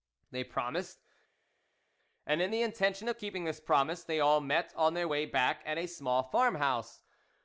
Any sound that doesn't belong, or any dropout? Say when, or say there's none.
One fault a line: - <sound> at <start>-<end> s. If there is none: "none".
none